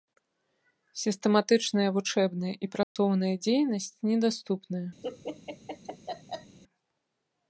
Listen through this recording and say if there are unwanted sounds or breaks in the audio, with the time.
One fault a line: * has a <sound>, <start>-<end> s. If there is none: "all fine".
* has a dropout, 2.8-3.0 s
* has a laugh, 5.0-6.6 s